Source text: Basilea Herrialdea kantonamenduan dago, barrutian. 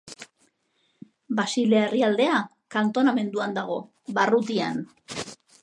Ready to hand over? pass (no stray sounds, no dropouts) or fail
pass